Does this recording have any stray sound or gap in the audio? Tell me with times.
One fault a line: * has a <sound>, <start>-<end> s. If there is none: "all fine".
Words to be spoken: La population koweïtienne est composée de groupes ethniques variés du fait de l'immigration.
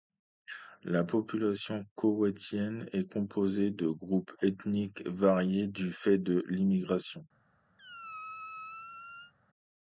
* has a squeak, 7.8-9.3 s